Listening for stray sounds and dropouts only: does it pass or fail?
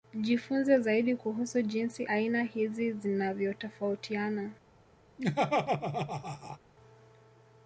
fail